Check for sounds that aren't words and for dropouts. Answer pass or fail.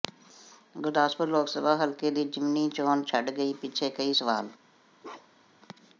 fail